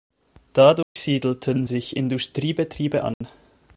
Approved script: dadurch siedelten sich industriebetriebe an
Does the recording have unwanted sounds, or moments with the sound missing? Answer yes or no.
yes